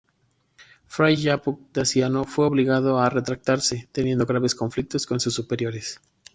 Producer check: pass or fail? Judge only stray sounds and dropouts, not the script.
pass